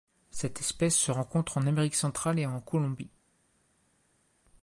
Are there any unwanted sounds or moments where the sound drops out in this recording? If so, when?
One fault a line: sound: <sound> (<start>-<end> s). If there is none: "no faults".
no faults